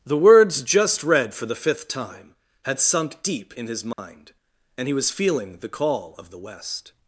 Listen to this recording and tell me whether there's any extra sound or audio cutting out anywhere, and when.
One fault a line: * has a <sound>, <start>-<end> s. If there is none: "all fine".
* has a dropout, 3.9-4.0 s